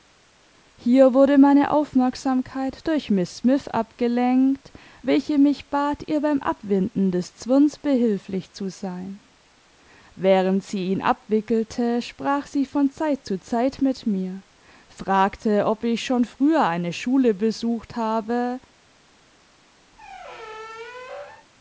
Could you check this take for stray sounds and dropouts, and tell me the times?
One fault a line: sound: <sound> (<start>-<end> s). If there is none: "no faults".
sound: squeak (19.9-21.5 s)